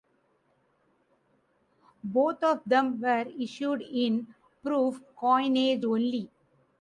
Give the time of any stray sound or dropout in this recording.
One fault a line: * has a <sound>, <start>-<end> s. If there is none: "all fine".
all fine